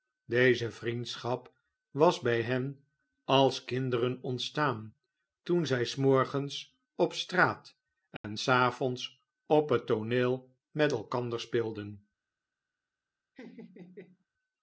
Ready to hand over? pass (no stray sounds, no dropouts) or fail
fail